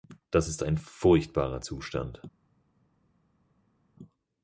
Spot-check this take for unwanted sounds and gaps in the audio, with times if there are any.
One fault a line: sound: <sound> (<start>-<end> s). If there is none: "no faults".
no faults